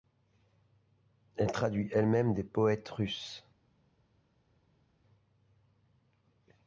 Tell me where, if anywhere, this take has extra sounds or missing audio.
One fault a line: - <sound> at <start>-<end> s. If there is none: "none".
none